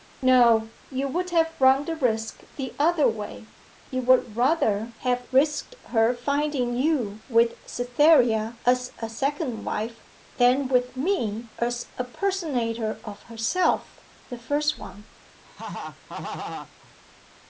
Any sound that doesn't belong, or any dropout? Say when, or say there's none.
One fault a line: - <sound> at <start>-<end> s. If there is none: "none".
- laugh at 15.4-16.9 s